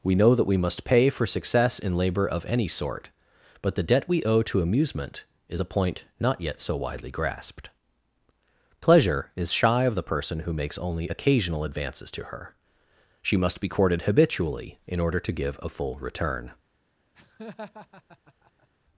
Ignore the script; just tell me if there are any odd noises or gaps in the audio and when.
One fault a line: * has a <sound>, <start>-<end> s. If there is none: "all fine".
* has a laugh, 17.1-18.7 s